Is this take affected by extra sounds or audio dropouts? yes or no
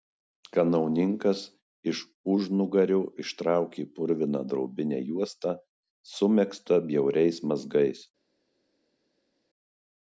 no